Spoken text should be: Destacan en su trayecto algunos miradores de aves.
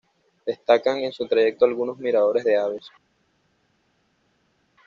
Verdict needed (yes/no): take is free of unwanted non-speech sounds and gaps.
yes